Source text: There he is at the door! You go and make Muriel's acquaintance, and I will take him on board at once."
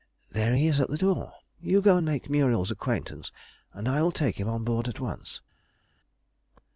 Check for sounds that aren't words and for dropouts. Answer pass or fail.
pass